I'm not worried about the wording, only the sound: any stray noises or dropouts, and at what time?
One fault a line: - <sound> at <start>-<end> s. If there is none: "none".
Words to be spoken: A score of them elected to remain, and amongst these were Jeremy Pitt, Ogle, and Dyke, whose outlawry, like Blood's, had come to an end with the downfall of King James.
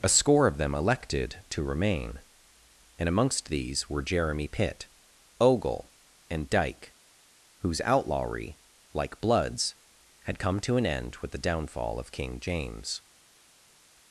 none